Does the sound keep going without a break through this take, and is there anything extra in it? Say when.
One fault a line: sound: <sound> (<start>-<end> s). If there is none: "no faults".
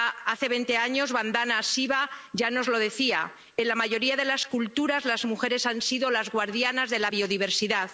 no faults